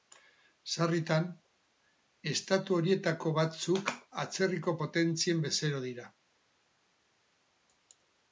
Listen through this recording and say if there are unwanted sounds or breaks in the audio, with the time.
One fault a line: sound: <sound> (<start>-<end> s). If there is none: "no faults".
no faults